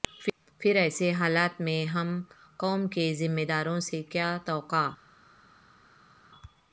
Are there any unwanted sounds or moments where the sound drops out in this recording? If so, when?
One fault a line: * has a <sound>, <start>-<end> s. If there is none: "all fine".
all fine